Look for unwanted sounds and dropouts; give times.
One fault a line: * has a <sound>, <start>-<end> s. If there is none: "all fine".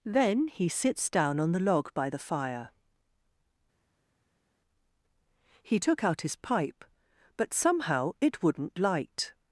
all fine